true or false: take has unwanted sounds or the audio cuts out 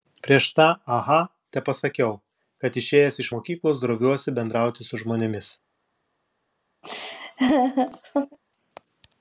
true